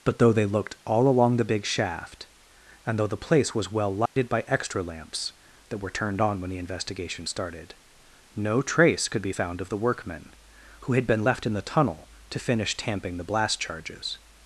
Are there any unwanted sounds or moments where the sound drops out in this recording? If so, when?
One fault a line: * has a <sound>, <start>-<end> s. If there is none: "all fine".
* has a dropout, 4.1-4.2 s